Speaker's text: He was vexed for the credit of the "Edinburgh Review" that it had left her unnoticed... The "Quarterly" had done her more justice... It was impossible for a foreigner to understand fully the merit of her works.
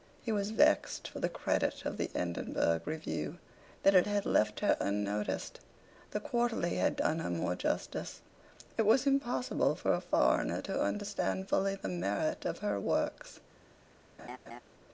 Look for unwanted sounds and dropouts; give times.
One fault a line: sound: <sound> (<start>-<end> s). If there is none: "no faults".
sound: laugh (14.2-14.6 s)